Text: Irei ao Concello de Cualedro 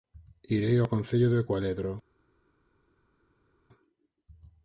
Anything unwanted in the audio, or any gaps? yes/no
no